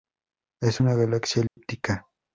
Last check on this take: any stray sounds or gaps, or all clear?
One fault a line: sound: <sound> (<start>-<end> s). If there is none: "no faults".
sound: dropout (1.5-1.6 s)